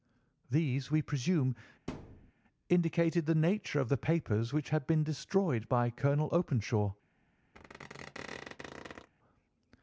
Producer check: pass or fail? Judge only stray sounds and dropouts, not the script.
fail